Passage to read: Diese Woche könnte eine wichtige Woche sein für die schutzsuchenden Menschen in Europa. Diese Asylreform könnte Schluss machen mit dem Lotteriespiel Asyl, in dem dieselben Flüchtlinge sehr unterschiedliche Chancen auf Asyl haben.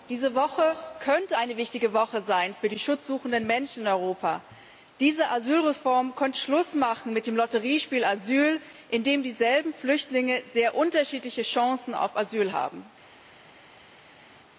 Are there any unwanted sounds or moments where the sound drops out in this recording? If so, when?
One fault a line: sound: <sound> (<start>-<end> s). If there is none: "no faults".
no faults